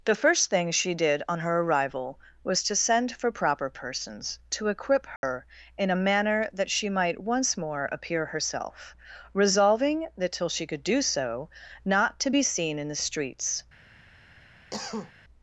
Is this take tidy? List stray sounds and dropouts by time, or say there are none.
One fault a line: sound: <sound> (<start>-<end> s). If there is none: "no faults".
sound: dropout (5.2-5.2 s)
sound: cough (14.7-15.1 s)